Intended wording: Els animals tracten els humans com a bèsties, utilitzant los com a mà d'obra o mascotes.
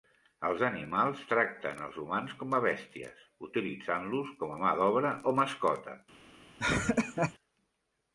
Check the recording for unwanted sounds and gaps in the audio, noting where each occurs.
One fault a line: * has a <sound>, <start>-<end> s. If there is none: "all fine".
* has a laugh, 6.6-7.3 s